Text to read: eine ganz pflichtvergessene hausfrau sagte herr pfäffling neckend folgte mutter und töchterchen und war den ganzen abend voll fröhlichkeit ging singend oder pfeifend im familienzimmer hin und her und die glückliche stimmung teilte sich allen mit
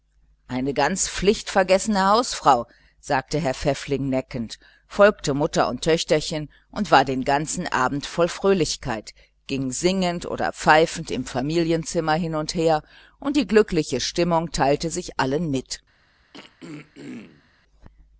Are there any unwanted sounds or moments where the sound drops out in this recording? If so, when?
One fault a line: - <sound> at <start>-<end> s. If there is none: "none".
- throat clearing at 16.3-17.5 s